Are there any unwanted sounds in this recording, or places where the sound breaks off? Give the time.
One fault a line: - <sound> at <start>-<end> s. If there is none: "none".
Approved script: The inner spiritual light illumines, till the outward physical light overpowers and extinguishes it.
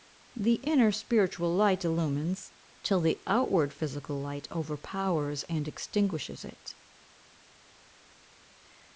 none